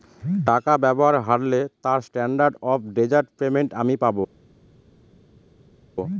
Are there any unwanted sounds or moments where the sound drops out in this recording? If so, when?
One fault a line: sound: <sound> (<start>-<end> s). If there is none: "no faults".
no faults